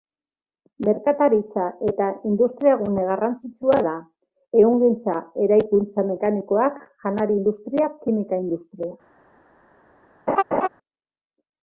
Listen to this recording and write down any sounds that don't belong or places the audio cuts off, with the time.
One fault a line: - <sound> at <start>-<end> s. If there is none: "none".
- laugh at 10.3-10.7 s